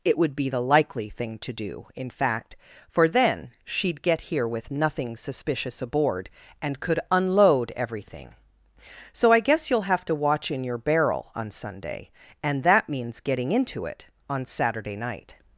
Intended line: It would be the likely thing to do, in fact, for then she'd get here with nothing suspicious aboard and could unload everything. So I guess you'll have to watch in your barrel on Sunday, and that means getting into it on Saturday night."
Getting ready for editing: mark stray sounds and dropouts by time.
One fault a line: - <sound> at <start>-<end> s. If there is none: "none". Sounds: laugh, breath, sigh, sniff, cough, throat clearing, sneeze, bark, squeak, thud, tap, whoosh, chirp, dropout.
none